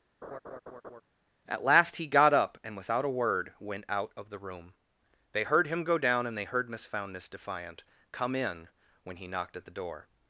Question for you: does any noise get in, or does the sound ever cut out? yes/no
yes